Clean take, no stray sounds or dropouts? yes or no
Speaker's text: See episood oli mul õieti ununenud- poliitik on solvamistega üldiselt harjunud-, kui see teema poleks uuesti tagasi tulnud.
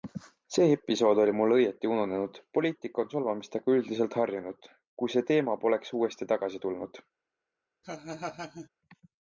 no